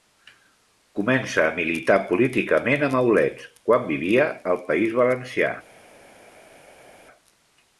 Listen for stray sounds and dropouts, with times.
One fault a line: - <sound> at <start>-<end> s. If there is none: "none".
none